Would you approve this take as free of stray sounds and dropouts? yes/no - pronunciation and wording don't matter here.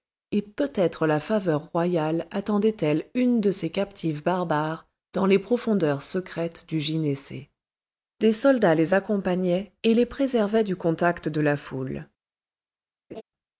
no